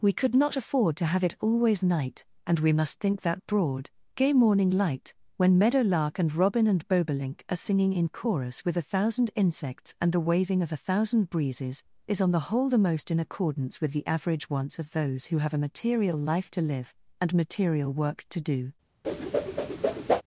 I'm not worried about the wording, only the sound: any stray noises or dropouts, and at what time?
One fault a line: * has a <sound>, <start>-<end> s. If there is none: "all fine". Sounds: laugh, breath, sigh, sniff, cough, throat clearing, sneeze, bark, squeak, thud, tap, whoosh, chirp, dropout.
* has a whoosh, 19.0-20.2 s